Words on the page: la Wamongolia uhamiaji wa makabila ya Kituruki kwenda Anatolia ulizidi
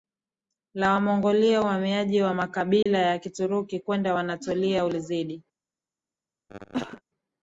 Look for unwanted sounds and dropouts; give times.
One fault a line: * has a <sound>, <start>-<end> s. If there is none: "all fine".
* has a dropout, 2.8-2.9 s
* has a cough, 6.5-7.0 s